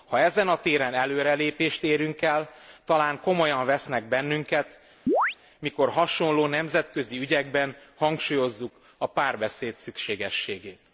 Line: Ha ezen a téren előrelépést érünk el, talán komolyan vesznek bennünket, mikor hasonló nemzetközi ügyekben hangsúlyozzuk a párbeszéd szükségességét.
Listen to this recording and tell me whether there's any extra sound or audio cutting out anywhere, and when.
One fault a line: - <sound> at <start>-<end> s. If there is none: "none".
- chirp at 5.1-5.4 s